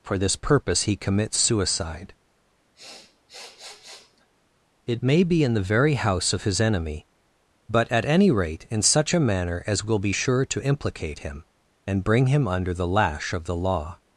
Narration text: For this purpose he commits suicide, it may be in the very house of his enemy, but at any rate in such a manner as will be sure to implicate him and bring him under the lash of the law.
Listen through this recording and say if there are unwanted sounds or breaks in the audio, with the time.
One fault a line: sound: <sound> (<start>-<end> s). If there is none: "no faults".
sound: sniff (2.7-4.3 s)